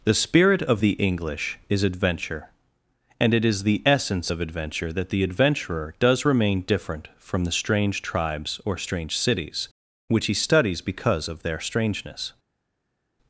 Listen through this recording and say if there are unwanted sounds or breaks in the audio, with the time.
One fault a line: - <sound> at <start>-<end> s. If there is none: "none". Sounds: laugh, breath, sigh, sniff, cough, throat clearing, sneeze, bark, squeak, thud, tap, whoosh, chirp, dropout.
none